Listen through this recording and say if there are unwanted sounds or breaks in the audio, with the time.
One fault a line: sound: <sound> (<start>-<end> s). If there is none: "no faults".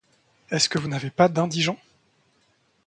no faults